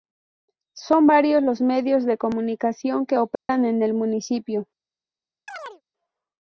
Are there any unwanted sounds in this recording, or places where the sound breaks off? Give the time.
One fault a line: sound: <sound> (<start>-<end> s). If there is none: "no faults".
sound: dropout (3.4-3.5 s)
sound: chirp (5.5-5.8 s)